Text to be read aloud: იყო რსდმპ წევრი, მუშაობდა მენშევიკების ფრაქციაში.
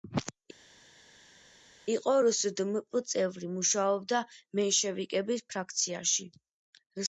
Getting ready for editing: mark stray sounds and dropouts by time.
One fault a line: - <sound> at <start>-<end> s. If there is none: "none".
none